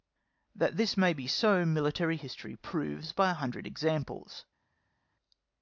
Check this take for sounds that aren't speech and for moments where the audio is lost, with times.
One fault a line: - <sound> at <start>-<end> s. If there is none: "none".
none